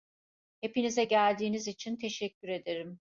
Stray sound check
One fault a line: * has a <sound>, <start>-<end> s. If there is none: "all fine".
all fine